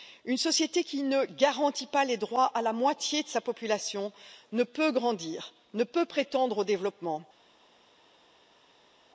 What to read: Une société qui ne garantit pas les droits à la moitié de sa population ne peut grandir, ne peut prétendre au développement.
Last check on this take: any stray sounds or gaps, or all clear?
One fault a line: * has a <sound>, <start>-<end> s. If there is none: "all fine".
all fine